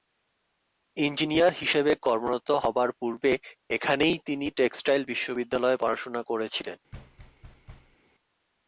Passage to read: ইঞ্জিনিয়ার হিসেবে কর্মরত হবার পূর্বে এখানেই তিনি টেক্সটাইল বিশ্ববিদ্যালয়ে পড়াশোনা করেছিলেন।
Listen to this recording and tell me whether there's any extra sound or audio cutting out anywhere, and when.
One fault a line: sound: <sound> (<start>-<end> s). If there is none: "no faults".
sound: thud (6.9-8.0 s)